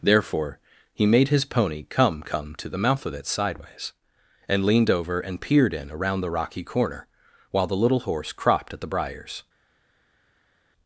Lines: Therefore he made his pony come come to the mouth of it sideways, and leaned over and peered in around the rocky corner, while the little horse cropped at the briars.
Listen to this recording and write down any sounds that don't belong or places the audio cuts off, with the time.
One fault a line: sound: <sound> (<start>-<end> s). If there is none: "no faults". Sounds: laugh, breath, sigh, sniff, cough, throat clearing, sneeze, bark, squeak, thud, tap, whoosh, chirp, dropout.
no faults